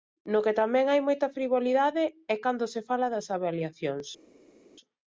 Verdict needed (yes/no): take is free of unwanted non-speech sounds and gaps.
yes